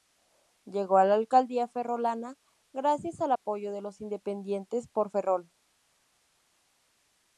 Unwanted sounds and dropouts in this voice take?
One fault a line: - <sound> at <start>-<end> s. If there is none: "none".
none